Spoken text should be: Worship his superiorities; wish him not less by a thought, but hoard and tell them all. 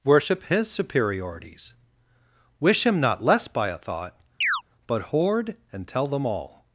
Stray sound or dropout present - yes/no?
yes